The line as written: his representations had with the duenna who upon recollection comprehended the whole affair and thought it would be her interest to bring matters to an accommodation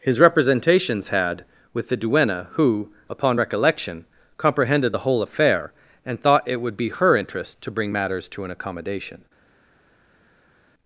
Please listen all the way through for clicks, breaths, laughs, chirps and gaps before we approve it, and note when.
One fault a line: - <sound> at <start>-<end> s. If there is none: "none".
none